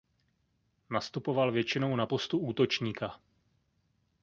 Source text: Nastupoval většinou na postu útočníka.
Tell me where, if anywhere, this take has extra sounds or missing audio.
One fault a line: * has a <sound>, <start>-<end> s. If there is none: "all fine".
all fine